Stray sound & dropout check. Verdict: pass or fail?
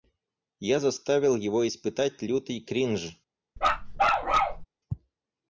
fail